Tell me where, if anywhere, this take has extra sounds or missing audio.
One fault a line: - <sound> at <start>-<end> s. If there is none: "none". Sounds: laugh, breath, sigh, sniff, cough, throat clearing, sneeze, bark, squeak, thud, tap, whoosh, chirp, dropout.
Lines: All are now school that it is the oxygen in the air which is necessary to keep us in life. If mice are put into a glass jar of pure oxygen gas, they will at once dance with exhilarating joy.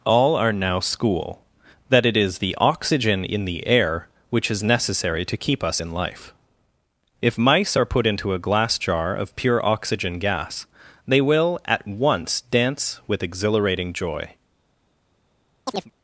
- chirp at 15.7-15.9 s